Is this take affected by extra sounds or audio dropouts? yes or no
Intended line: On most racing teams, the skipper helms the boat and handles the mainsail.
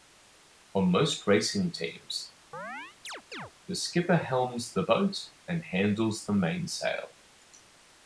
yes